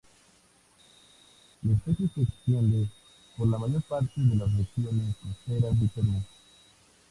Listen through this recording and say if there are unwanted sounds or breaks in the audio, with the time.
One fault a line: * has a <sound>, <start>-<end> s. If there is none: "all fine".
all fine